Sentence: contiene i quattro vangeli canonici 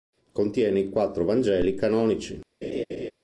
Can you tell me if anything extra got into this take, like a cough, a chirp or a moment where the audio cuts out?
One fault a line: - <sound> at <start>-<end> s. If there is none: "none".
- laugh at 2.6-3.1 s